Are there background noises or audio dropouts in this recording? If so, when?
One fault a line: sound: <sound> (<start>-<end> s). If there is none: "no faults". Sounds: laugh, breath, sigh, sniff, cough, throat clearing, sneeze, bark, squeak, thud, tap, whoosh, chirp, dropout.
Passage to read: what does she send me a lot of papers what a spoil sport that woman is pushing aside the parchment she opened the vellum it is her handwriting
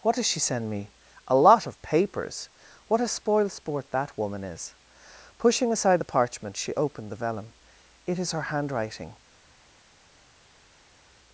no faults